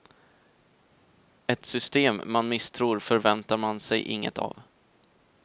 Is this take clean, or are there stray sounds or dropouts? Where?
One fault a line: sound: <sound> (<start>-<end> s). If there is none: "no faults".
no faults